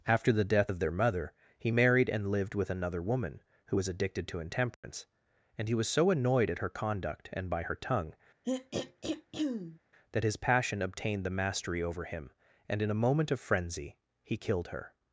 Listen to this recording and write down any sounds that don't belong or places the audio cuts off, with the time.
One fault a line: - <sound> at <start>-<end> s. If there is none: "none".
- dropout at 4.7-4.8 s
- throat clearing at 8.4-9.8 s